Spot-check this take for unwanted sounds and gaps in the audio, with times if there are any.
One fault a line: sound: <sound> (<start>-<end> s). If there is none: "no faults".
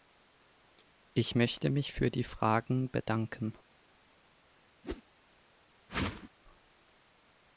sound: whoosh (4.8-5.0 s)
sound: whoosh (5.9-6.3 s)